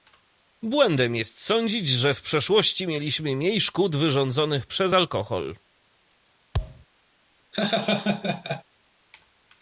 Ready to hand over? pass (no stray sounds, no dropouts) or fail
fail